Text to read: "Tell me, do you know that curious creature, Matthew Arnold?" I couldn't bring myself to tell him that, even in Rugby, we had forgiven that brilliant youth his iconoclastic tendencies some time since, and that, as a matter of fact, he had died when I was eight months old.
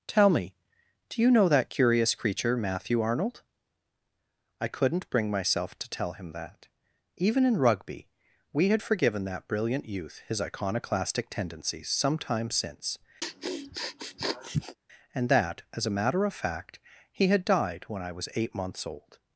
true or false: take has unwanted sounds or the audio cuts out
true